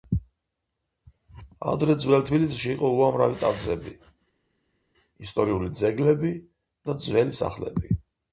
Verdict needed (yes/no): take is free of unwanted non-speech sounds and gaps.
yes